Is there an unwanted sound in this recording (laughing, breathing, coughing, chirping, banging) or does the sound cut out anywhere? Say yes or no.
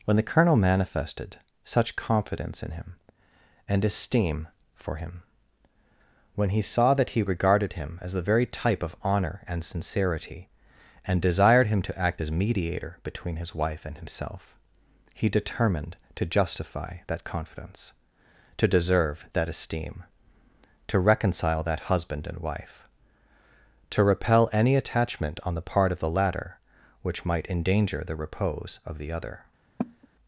yes